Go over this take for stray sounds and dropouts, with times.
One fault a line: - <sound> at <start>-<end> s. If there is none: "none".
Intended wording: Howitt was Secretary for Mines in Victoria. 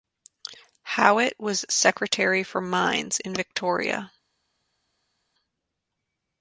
none